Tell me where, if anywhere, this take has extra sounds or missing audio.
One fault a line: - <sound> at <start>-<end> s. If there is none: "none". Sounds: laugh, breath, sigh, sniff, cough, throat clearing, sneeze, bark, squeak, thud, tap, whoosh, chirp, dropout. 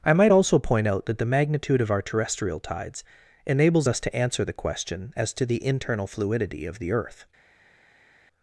none